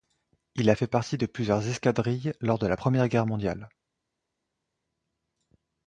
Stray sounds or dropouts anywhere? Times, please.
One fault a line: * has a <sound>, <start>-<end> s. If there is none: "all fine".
all fine